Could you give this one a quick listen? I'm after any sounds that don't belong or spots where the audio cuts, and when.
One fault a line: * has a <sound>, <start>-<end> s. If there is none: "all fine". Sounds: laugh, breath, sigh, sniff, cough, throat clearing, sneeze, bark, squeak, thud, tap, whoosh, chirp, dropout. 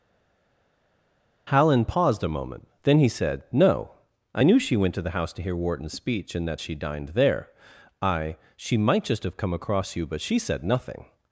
all fine